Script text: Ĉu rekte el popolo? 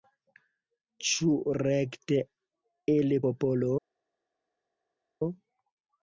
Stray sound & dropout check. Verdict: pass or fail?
pass